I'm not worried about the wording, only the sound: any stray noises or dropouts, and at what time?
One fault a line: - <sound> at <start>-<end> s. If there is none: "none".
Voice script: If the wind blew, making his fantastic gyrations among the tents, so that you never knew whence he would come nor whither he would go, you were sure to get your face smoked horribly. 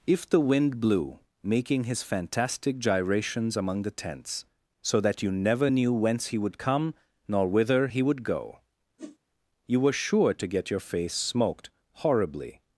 - whoosh at 9.0-9.2 s